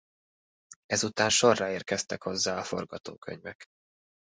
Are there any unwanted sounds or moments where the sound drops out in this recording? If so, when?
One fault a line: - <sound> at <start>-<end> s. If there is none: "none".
none